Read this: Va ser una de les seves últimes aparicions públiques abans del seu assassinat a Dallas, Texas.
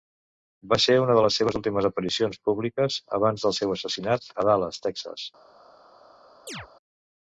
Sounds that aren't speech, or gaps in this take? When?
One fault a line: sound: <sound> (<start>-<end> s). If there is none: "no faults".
sound: chirp (6.5-6.7 s)